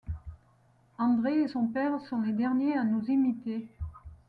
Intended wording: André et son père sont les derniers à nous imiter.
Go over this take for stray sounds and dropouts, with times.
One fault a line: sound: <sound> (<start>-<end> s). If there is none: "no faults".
no faults